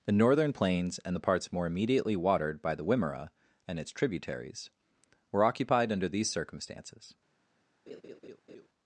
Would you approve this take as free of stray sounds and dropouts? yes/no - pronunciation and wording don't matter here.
no